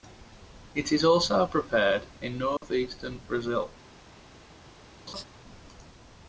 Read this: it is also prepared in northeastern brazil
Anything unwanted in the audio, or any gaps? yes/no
yes